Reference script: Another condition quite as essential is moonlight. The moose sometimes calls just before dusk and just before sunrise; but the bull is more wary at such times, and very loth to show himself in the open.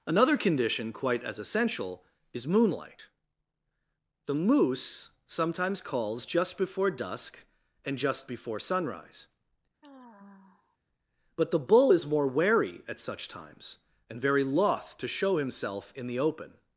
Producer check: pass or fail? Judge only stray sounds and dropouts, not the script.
fail